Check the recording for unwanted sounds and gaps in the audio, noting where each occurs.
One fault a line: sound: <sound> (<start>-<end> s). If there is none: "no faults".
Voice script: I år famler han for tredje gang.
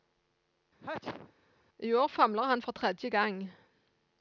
sound: sneeze (0.8-1.3 s)